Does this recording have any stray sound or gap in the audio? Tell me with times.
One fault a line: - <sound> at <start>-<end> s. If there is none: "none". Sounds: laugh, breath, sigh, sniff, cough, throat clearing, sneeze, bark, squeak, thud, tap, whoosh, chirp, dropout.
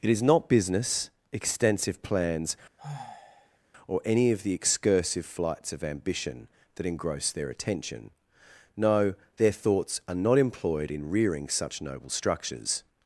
- sigh at 2.8-3.6 s